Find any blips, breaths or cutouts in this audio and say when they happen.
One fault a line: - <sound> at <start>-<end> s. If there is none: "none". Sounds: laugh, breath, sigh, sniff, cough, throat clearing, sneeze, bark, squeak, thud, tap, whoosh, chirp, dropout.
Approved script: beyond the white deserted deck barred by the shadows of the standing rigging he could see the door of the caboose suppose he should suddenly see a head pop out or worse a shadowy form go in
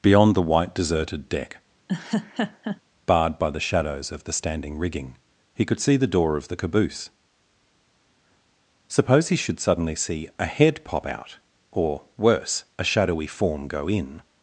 - laugh at 1.9-2.8 s